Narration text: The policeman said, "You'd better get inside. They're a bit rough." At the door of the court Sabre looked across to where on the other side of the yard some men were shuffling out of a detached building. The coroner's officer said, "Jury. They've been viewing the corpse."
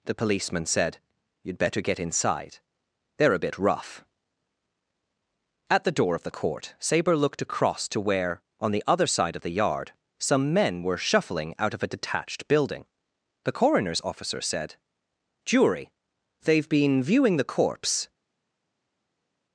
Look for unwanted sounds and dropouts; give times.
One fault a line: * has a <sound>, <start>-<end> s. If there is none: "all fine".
all fine